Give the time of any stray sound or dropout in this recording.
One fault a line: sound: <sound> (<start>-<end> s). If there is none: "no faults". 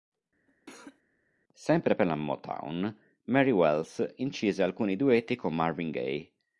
sound: cough (0.5-1.0 s)